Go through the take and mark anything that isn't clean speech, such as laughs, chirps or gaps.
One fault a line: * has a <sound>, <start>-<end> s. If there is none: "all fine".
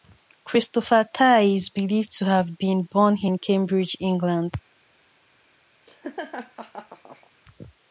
* has a laugh, 5.9-7.3 s